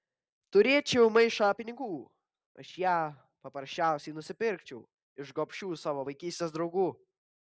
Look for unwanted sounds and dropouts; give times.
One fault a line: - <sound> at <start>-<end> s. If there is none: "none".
none